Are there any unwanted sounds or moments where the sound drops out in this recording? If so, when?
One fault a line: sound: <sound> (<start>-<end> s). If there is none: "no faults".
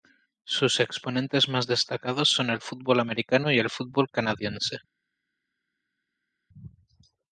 no faults